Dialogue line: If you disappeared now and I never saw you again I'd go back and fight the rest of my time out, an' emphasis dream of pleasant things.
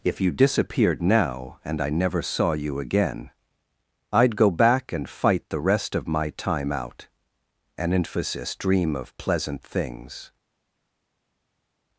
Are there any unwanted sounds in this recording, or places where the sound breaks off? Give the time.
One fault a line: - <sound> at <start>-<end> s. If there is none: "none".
none